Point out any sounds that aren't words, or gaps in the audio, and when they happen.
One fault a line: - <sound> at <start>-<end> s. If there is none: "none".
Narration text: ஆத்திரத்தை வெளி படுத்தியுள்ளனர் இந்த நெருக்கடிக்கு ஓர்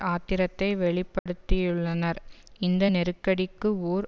- dropout at 1.2-1.3 s